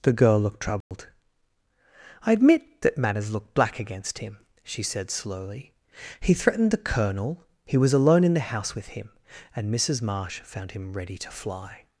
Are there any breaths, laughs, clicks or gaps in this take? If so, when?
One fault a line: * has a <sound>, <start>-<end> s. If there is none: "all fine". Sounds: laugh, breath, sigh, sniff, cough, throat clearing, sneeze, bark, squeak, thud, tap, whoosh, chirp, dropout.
* has a dropout, 0.8-0.9 s